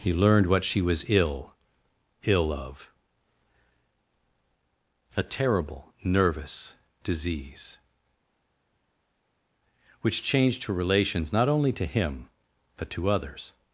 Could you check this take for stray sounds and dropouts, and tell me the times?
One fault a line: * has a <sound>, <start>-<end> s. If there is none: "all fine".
all fine